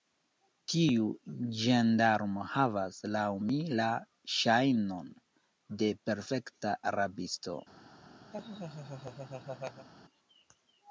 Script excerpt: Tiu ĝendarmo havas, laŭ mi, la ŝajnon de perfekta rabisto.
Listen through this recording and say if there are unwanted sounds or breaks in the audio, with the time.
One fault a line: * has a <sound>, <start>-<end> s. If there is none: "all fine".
* has a laugh, 8.3-9.9 s